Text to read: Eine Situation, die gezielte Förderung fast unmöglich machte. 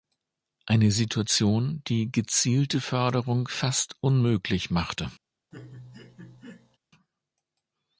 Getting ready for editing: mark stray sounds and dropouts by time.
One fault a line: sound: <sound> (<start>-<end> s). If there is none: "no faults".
sound: laugh (5.5-6.8 s)